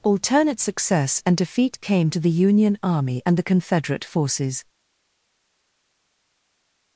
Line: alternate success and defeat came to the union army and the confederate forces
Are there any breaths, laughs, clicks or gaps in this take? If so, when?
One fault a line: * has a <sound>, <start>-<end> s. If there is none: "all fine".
all fine